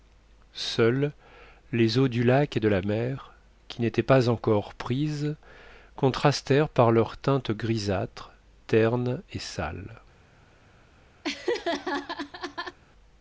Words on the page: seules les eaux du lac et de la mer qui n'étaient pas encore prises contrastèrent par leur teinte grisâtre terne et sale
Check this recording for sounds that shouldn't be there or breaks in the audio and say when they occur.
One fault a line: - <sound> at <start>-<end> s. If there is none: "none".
- laugh at 11.2-12.8 s